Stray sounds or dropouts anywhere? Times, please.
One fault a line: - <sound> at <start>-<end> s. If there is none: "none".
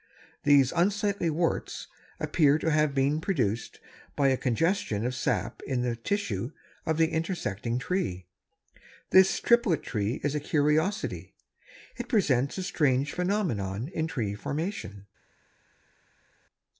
none